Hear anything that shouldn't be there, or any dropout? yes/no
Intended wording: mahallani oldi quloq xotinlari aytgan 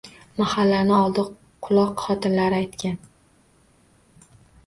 no